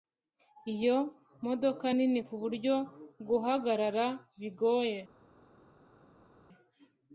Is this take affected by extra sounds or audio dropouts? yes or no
no